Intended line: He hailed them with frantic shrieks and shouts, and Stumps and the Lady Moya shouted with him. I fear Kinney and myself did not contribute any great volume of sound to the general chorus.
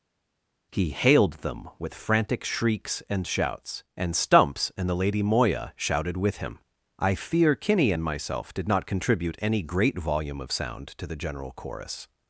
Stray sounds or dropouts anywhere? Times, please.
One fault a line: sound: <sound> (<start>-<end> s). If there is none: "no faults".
no faults